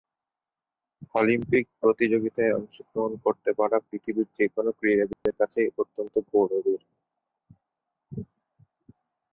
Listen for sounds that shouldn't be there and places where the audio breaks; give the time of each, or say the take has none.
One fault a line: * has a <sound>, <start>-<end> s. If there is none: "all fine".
* has a dropout, 5.1-5.3 s